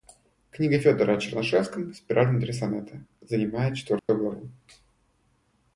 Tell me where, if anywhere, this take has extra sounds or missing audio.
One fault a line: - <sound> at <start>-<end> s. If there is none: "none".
- dropout at 4.0-4.1 s